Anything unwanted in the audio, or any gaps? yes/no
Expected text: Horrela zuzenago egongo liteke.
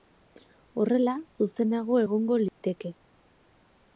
yes